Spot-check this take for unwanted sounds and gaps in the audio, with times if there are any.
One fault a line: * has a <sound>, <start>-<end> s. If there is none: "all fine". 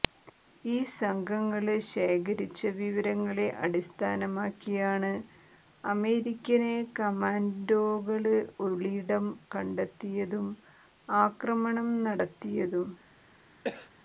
* has a cough, 13.6-13.9 s